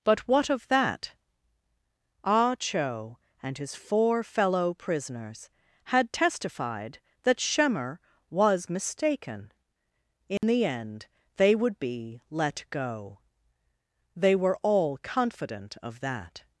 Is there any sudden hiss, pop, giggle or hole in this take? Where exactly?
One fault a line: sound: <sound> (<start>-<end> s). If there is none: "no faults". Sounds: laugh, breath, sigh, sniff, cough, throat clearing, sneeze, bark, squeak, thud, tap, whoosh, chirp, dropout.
sound: dropout (10.4-10.4 s)